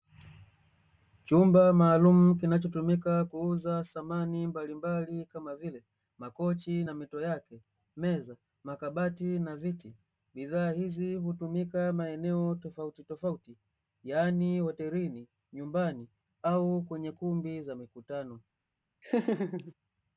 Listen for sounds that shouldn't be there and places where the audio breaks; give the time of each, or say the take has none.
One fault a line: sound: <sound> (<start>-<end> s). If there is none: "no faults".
sound: laugh (19.0-19.7 s)